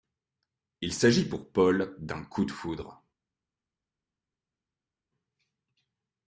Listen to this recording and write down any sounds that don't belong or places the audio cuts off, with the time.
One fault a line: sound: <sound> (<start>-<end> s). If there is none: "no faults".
no faults